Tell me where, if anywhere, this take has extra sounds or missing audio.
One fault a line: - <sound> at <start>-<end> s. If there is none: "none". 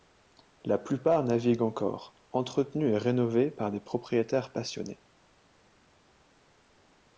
none